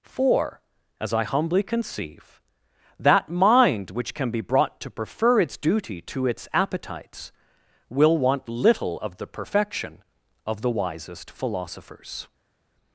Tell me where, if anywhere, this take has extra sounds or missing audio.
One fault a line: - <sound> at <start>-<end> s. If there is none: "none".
none